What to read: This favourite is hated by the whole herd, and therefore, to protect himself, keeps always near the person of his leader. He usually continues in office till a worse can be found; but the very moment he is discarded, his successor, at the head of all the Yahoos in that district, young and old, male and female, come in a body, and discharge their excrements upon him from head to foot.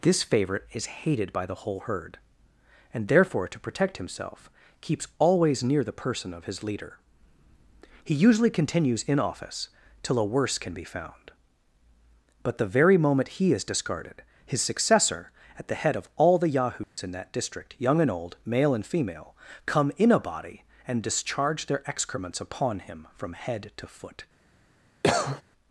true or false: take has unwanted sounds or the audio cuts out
true